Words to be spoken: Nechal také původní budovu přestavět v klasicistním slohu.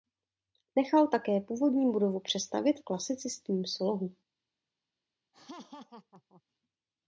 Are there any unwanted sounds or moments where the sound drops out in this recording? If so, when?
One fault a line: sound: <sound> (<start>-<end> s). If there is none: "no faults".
sound: laugh (5.3-6.4 s)